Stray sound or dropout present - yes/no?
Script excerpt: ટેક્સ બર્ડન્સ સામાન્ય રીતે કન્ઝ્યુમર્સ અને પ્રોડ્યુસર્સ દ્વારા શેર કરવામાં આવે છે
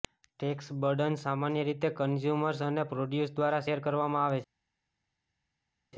no